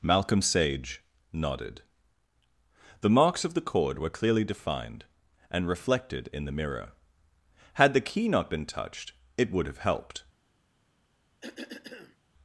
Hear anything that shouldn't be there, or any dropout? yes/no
yes